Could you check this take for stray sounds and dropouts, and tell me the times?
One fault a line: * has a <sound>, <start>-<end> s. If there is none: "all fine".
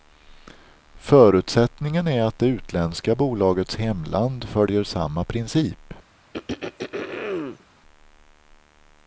* has a throat clearing, 6.3-7.6 s